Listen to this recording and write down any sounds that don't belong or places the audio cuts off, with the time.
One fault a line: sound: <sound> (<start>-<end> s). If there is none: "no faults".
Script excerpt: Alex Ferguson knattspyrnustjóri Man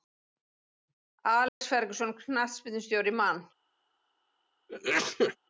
sound: dropout (1.5-1.6 s)
sound: sneeze (4.7-5.4 s)